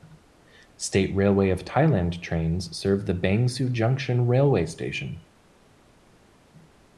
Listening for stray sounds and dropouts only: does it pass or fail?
pass